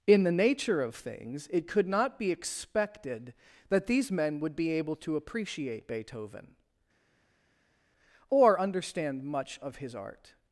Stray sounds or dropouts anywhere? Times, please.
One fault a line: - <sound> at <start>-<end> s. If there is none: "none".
none